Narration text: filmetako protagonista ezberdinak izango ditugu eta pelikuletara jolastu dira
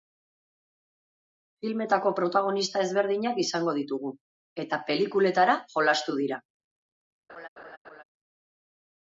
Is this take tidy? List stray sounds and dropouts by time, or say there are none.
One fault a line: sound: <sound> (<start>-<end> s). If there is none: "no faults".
sound: laugh (7.3-8.0 s)